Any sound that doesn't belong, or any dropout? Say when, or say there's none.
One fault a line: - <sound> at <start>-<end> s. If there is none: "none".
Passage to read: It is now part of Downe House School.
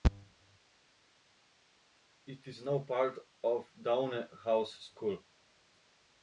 none